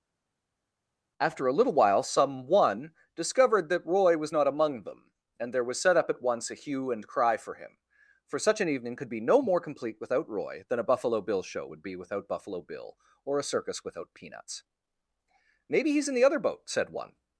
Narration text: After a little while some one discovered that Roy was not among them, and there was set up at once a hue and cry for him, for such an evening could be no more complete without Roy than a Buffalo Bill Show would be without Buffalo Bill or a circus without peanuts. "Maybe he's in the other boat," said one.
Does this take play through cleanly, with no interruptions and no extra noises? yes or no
yes